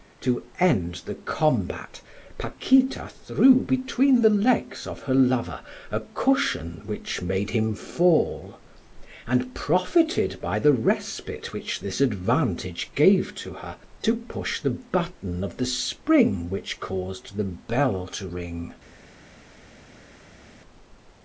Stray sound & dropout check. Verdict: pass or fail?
pass